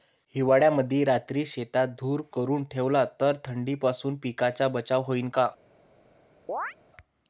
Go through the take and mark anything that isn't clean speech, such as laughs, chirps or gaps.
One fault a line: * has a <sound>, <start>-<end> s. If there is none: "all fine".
* has a chirp, 6.5-6.7 s